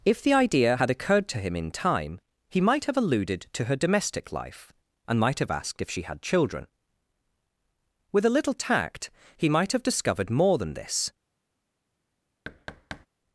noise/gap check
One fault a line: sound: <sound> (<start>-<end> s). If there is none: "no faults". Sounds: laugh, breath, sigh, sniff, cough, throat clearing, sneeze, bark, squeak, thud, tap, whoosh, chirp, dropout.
sound: thud (12.4-13.1 s)